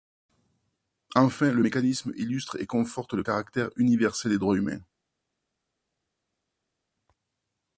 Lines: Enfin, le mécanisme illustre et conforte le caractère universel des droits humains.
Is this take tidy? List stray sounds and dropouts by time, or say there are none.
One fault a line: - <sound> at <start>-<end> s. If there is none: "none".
none